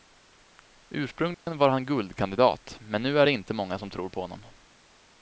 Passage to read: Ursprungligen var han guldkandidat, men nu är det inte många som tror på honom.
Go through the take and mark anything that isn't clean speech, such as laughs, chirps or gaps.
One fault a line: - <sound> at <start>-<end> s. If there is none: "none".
- dropout at 1.3-1.5 s